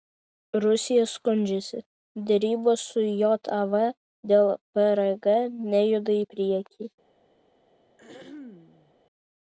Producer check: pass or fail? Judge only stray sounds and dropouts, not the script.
fail